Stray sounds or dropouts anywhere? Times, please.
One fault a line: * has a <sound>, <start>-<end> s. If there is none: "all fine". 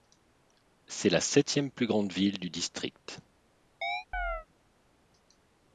* has a chirp, 3.8-4.5 s